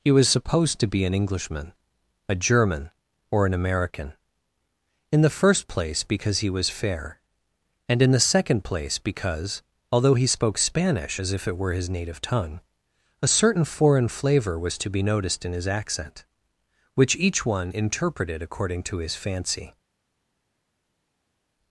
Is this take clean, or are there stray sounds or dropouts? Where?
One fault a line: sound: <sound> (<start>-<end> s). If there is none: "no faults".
no faults